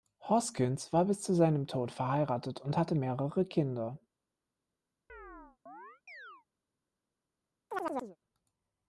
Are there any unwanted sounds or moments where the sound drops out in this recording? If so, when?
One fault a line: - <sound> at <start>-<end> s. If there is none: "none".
- chirp at 5.1-6.5 s
- chirp at 7.7-8.2 s